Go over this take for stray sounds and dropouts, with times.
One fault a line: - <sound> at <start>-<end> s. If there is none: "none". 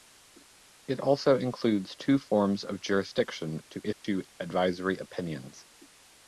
- dropout at 3.9-4.0 s